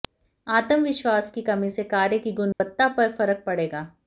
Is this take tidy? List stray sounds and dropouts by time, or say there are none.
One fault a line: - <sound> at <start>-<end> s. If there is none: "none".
- dropout at 2.5-2.6 s